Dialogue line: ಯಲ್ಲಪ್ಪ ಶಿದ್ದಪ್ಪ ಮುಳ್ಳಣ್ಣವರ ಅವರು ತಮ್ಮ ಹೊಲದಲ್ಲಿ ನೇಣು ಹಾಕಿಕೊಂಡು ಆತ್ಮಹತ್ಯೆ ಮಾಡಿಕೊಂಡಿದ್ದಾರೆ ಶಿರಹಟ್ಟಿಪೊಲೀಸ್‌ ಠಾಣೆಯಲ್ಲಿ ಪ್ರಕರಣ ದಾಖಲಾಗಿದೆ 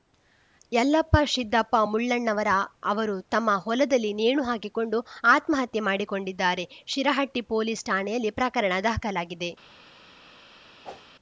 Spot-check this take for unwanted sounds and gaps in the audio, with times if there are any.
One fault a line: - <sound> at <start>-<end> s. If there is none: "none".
- whoosh at 10.8-11.1 s